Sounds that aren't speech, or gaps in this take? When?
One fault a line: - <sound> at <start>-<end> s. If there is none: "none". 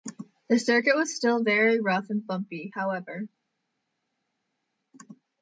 none